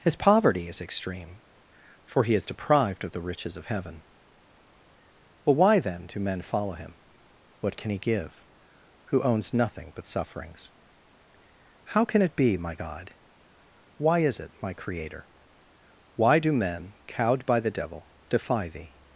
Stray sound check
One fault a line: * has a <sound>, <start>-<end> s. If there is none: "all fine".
all fine